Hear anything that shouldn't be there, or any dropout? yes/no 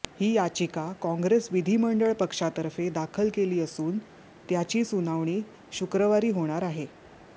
no